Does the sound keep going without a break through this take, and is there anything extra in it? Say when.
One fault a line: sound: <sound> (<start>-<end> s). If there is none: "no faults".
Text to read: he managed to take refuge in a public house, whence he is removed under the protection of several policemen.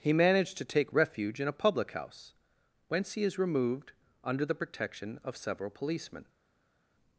no faults